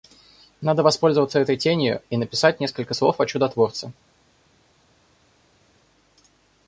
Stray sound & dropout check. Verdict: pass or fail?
pass